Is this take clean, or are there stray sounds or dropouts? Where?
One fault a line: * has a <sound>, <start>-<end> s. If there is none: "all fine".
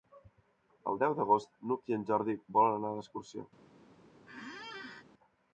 * has a squeak, 4.3-5.0 s